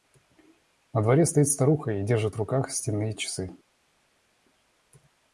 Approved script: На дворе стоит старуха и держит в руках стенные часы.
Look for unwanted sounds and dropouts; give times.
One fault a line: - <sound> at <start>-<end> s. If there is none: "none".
none